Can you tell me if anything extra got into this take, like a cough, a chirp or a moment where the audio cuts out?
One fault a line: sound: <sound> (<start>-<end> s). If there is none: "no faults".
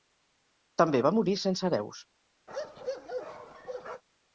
sound: bark (2.5-4.0 s)